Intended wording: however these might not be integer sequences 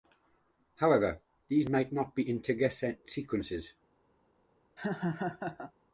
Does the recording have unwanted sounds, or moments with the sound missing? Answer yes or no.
yes